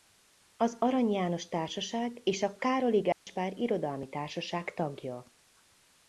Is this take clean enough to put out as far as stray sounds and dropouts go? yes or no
no